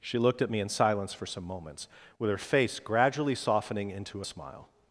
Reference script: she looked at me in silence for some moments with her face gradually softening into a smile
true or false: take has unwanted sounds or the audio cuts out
false